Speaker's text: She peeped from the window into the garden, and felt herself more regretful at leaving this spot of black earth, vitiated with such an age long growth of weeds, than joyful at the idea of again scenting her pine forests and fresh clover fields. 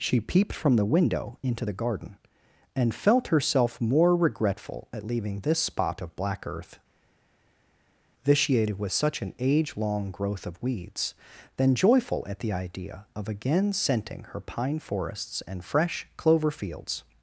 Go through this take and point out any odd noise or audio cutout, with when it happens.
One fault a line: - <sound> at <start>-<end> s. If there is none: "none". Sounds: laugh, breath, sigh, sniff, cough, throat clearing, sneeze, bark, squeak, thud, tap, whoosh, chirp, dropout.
none